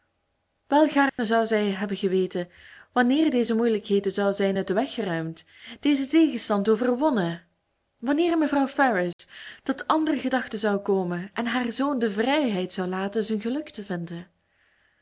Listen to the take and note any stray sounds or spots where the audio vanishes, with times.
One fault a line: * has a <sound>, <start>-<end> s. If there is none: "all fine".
* has a dropout, 1.1-1.2 s
* has a dropout, 9.1-9.2 s